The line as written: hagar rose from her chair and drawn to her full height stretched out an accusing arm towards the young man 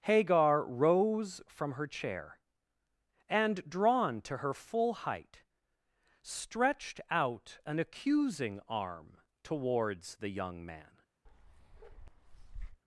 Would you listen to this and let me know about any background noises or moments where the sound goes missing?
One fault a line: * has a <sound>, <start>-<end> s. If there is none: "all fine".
* has a bark, 11.3-12.8 s